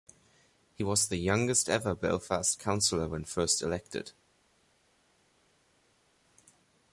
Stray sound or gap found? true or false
false